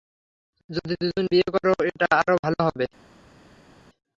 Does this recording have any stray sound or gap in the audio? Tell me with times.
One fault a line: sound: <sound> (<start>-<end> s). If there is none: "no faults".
no faults